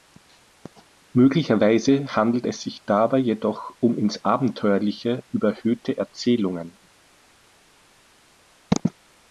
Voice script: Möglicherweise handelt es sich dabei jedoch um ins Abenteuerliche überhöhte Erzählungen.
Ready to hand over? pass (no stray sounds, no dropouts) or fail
pass